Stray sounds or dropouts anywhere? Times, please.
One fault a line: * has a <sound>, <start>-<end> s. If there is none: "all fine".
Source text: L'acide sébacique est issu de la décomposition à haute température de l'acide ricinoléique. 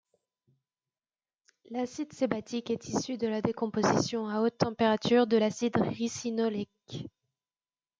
all fine